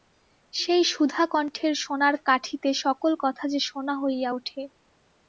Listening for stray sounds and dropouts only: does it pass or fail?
pass